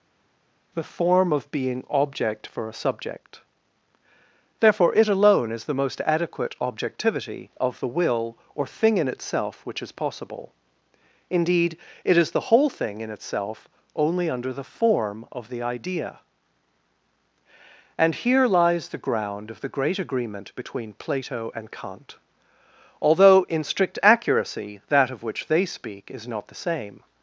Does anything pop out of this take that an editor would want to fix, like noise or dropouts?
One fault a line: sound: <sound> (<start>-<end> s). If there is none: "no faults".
no faults